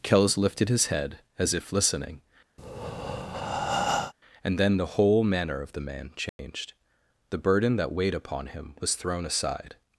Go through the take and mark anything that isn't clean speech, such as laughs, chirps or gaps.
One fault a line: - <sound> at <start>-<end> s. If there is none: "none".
- breath at 2.6-4.1 s
- dropout at 6.3-6.4 s